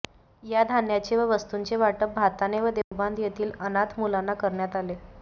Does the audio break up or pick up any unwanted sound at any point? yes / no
yes